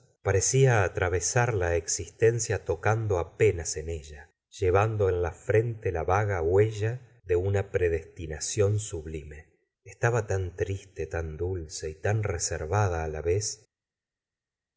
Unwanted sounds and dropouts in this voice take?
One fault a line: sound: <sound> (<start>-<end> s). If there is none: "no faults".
no faults